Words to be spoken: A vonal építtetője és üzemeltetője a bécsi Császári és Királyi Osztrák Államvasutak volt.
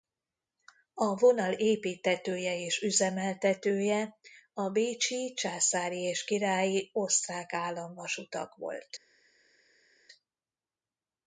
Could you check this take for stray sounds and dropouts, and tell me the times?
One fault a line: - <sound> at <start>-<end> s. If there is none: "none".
none